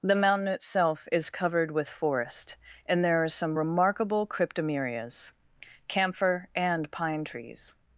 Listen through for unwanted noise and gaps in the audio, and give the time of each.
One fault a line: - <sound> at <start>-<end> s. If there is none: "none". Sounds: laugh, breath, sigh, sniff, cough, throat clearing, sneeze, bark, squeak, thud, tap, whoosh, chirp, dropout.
none